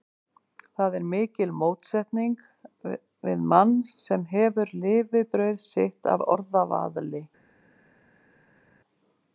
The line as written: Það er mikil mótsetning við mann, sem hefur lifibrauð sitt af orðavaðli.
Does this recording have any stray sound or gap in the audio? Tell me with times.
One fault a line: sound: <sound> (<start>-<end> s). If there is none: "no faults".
no faults